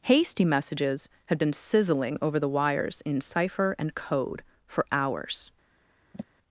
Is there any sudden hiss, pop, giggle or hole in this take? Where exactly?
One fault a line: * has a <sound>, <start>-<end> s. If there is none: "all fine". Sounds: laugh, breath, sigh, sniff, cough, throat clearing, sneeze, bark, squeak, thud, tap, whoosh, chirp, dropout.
* has a sigh, 6.1-6.2 s